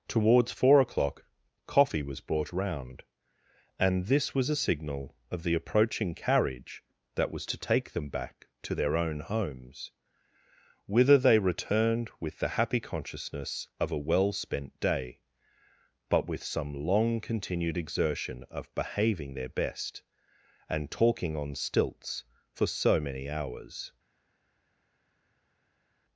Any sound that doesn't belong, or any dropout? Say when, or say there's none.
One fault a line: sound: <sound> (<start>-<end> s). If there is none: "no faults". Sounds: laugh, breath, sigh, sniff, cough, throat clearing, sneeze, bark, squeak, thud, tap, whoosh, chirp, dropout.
no faults